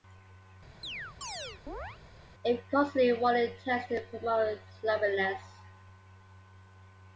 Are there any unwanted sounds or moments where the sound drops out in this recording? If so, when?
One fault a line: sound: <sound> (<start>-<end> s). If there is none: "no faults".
sound: chirp (0.8-2.0 s)